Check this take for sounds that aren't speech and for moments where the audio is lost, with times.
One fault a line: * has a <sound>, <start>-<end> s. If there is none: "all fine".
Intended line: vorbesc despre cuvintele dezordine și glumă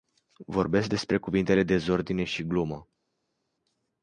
all fine